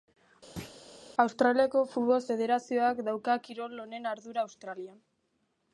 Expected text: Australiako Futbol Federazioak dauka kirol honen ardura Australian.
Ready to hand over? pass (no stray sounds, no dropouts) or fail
fail